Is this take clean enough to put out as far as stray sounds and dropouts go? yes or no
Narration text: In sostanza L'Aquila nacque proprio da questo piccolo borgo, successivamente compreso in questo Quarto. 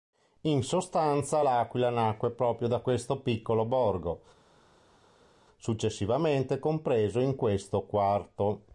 yes